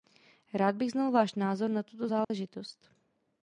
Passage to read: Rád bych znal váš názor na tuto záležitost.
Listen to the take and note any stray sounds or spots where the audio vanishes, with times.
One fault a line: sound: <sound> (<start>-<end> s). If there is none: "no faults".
sound: dropout (2.2-2.3 s)